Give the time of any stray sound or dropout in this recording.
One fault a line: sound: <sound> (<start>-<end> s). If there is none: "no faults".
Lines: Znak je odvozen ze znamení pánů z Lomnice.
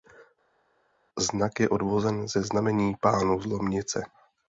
no faults